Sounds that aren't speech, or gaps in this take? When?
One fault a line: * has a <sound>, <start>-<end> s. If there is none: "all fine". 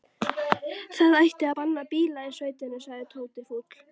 all fine